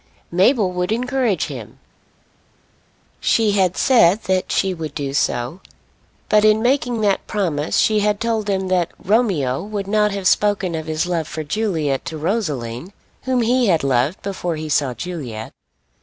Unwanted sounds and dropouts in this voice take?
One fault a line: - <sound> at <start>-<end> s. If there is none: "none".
none